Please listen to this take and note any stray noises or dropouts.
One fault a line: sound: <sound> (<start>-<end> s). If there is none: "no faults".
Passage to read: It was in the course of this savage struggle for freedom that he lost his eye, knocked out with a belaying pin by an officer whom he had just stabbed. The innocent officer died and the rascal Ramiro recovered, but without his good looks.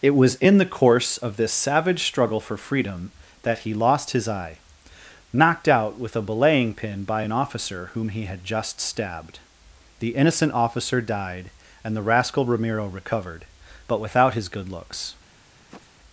sound: sniff (15.5-15.9 s)